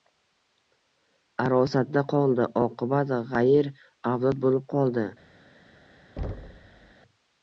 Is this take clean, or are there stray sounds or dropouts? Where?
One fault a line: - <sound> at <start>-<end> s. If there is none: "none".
- thud at 6.2-6.9 s